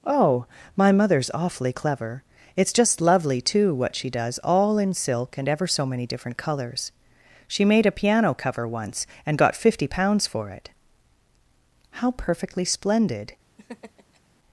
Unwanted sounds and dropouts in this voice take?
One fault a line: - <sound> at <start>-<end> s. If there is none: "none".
- laugh at 13.6-14.2 s